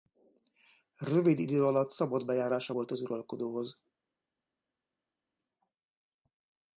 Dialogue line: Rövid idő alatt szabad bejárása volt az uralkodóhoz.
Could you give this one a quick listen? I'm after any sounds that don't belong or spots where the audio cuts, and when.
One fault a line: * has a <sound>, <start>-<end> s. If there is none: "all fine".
all fine